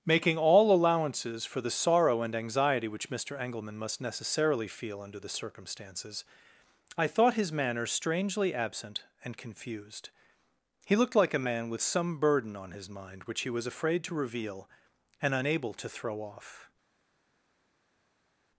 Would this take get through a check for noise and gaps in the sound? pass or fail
pass